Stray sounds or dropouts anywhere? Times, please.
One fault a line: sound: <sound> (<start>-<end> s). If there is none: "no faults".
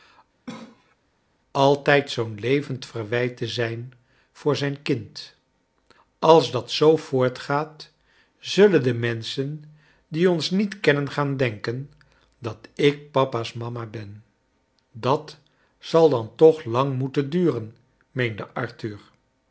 sound: cough (0.5-1.0 s)